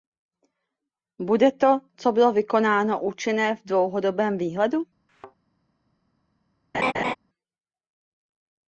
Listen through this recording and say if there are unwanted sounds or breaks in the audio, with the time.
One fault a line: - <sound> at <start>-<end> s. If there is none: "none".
- thud at 5.1-5.4 s
- laugh at 6.7-7.2 s